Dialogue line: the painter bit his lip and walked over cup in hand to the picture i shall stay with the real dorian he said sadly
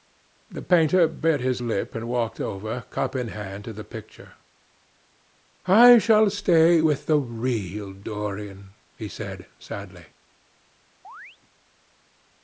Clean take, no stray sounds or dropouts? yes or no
no